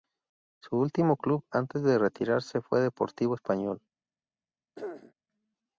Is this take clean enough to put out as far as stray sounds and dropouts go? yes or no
no